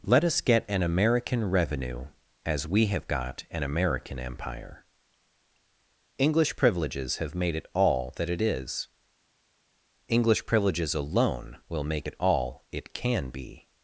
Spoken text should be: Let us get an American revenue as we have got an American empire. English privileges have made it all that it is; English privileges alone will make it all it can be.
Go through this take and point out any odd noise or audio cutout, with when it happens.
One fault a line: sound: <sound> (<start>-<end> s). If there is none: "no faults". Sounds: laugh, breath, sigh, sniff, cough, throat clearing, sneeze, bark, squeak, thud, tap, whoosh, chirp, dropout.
no faults